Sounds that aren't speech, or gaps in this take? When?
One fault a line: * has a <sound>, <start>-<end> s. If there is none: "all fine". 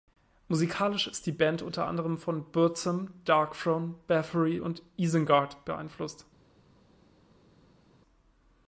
all fine